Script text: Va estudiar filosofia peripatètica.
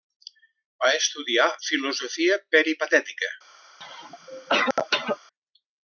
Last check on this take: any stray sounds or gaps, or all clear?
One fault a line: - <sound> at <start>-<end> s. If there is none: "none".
- cough at 3.8-5.2 s